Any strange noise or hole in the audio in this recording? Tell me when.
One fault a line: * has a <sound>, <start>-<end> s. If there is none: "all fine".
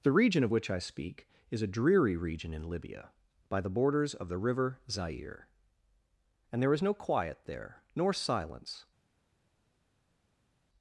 all fine